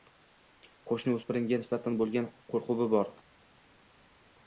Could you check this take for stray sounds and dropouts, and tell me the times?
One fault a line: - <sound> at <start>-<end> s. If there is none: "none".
none